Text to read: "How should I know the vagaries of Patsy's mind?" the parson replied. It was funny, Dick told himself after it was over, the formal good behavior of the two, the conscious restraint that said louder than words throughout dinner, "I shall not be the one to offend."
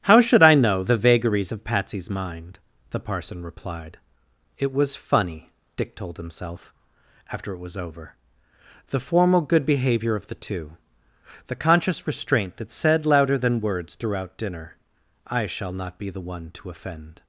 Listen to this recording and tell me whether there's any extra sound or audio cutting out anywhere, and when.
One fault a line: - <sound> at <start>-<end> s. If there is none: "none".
none